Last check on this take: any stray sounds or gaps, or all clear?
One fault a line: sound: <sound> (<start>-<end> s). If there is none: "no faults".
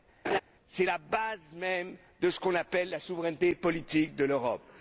sound: laugh (0.2-0.4 s)